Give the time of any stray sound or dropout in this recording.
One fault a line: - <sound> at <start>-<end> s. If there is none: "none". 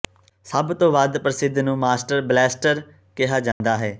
- dropout at 3.5-3.6 s